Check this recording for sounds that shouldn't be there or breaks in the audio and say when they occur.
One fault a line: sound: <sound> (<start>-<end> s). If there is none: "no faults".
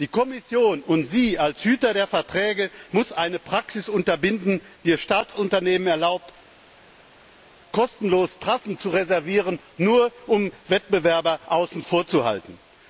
no faults